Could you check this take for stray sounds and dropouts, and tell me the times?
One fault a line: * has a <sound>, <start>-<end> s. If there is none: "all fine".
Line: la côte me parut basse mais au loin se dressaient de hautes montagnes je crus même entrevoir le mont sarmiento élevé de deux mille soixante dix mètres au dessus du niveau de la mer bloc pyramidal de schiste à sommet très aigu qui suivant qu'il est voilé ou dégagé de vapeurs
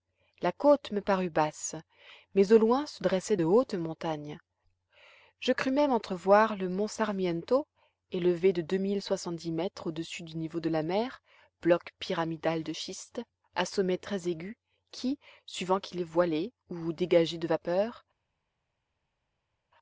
all fine